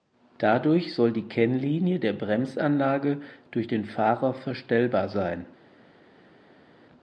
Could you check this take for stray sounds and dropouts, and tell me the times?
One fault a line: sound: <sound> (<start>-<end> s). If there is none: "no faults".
no faults